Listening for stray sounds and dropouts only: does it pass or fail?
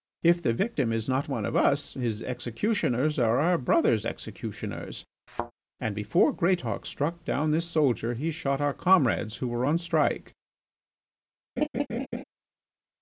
fail